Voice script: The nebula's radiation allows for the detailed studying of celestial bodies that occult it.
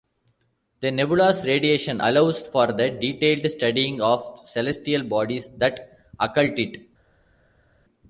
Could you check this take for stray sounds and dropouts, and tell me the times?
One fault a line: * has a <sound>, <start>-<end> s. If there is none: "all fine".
all fine